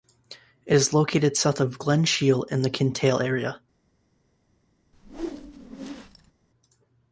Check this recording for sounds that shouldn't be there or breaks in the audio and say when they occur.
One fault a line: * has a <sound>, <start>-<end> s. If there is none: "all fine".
* has a whoosh, 4.9-6.3 s